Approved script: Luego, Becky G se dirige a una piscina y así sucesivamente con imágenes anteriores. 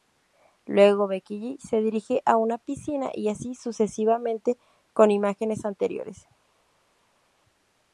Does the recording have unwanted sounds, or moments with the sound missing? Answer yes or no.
no